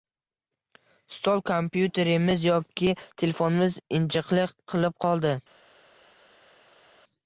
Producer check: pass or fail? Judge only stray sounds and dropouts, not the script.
pass